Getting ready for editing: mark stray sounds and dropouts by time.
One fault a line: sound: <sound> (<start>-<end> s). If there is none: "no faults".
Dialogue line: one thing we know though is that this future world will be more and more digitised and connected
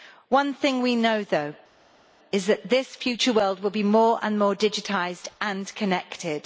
no faults